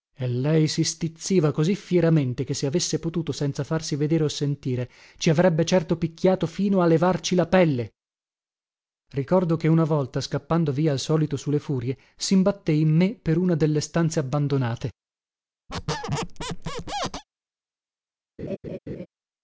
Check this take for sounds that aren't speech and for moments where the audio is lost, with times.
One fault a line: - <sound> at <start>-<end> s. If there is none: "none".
- squeak at 15.7-17.2 s
- laugh at 18.4-19.1 s